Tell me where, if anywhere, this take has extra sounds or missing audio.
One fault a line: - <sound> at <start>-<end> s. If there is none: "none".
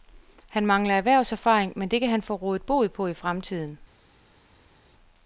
none